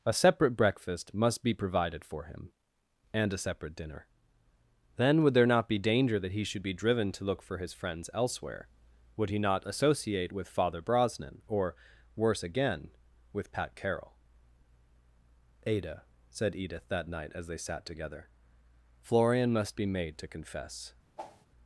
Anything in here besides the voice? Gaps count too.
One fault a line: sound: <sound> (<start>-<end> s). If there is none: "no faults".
sound: whoosh (21.2-21.5 s)